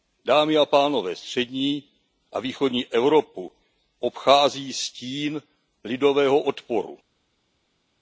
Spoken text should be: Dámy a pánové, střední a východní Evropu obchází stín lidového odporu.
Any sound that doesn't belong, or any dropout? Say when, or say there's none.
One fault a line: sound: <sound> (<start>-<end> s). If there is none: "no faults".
no faults